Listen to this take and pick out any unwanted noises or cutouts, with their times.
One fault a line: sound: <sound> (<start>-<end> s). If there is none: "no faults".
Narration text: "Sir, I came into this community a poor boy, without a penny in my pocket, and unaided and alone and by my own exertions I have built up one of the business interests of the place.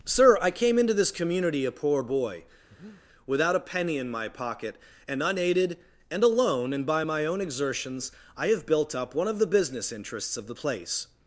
sound: breath (2.7-3.0 s)